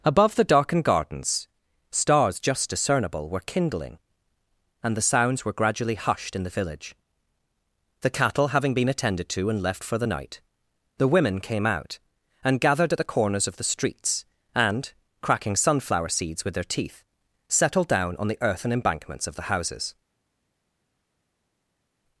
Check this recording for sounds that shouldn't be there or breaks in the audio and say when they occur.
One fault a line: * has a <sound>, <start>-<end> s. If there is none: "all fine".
all fine